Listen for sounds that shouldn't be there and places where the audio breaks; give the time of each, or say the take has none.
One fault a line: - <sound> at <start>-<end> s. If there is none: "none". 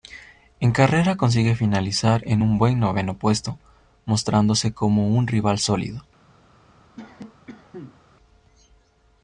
- cough at 7.0-8.0 s